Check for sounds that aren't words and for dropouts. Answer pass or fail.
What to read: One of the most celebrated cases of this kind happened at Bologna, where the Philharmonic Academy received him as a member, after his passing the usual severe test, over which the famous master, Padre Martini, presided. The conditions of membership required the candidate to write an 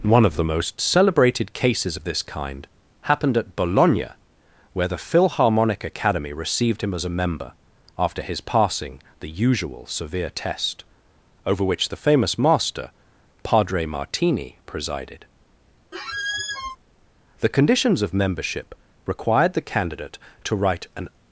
fail